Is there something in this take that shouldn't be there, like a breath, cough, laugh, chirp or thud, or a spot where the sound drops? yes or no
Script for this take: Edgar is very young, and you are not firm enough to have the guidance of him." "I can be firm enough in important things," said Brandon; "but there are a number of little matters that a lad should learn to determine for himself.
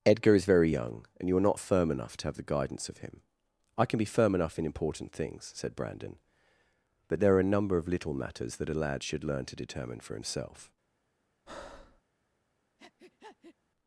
yes